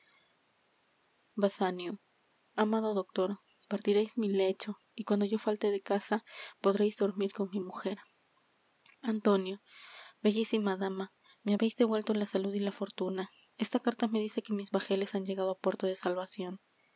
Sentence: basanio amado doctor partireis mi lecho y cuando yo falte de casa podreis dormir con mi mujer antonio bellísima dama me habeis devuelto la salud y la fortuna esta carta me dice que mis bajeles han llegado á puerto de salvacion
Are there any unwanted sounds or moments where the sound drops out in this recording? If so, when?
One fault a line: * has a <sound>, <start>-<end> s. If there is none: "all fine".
all fine